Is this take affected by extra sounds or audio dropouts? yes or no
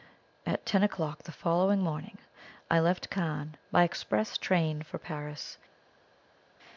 no